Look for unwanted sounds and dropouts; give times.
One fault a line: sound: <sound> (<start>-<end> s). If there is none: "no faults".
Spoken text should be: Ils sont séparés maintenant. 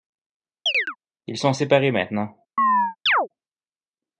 sound: chirp (0.7-1.0 s)
sound: chirp (2.6-3.3 s)